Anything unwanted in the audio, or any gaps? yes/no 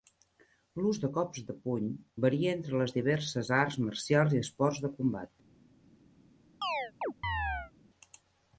yes